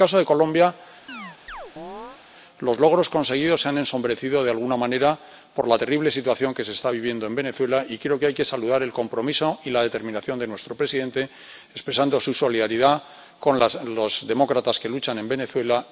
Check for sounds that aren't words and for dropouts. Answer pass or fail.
fail